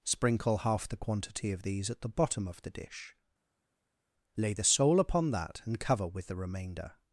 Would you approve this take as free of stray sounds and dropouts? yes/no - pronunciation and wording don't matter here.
yes